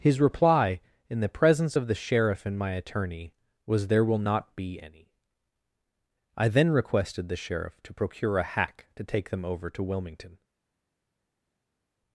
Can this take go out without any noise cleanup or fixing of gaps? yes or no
yes